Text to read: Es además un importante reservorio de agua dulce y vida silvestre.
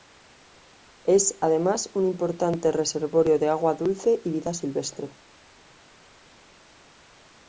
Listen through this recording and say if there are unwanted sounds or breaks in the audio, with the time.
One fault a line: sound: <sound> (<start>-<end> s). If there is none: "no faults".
no faults